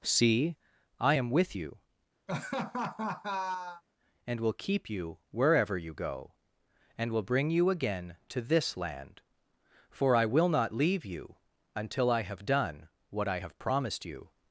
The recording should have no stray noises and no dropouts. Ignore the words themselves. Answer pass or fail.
fail